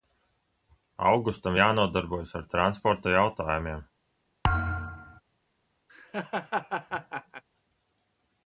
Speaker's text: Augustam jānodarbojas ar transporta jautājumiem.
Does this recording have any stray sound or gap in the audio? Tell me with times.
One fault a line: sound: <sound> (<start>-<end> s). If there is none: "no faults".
sound: thud (4.4-5.2 s)
sound: laugh (5.9-7.4 s)